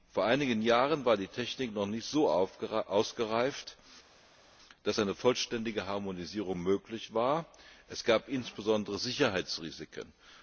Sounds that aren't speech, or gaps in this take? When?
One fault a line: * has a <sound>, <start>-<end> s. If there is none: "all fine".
all fine